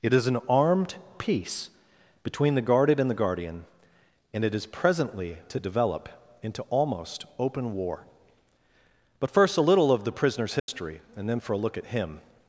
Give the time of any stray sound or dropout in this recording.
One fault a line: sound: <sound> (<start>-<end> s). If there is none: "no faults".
sound: dropout (10.6-10.7 s)